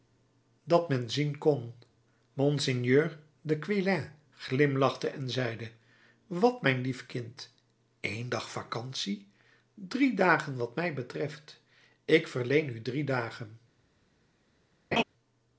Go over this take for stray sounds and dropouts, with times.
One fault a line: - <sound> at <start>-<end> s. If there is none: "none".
- laugh at 14.9-15.0 s